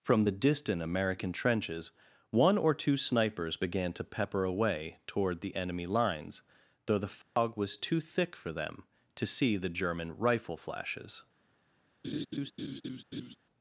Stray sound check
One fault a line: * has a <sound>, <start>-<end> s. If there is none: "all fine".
* has a dropout, 7.2-7.4 s
* has a laugh, 12.0-13.4 s